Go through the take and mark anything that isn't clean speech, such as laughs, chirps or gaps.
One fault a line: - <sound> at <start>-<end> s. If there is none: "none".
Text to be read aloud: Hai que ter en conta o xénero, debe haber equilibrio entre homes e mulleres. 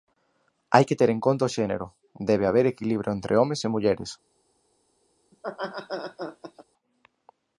- laugh at 5.3-6.6 s